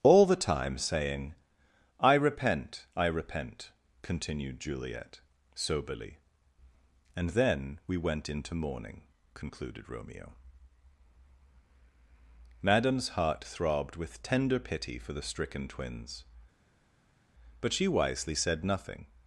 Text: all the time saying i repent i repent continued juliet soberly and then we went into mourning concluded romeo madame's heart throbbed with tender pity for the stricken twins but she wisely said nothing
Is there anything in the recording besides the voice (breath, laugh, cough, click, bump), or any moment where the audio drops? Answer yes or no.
no